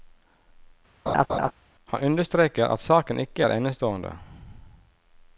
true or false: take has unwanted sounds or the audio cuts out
true